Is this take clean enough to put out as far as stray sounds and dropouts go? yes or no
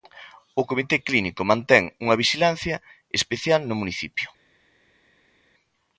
yes